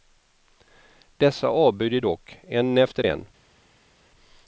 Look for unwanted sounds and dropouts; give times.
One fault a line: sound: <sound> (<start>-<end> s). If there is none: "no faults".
no faults